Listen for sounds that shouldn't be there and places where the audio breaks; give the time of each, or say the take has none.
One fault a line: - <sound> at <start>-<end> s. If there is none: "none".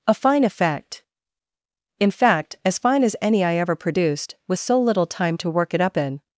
none